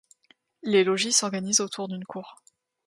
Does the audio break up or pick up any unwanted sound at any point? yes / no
no